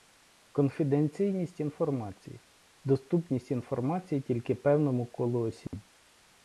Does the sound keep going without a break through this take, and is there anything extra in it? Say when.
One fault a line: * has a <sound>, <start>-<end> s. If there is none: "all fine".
* has a dropout, 5.7-5.7 s